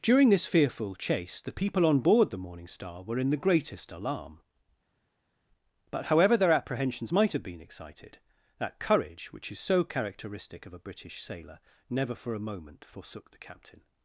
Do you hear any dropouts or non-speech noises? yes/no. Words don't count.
no